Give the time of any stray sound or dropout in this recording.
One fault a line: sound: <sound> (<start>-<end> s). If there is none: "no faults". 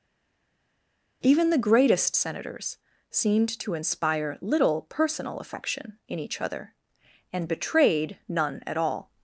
no faults